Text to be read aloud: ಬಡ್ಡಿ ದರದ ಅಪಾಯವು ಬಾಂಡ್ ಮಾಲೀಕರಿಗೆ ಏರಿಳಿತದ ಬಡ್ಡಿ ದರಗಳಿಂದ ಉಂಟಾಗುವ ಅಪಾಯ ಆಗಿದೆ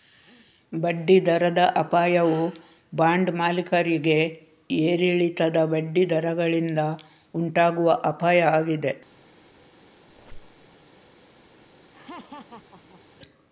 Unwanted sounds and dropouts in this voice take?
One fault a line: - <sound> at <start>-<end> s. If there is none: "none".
- squeak at 10.1-10.7 s
- laugh at 11.9-13.0 s